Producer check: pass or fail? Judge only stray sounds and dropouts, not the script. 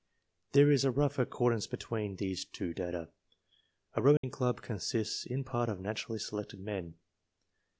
fail